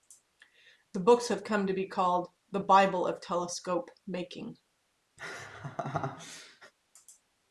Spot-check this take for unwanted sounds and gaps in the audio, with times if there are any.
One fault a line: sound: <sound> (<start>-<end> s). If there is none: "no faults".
sound: laugh (5.2-6.7 s)